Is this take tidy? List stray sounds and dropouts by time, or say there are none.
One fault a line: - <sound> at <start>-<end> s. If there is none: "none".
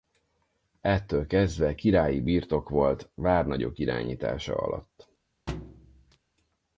- thud at 5.5-6.2 s